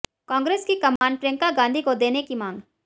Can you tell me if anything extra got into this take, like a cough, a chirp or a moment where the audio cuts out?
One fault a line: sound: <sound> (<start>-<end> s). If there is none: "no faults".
sound: dropout (1.0-1.0 s)